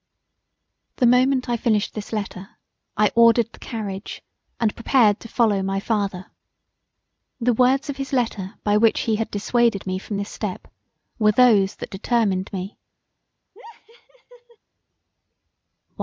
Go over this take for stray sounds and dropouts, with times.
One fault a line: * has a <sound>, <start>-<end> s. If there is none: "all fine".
* has a laugh, 13.5-14.6 s